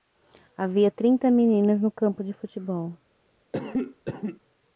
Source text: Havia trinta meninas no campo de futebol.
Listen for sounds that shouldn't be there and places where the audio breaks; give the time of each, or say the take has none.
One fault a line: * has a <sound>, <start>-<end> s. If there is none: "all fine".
* has a cough, 3.5-4.4 s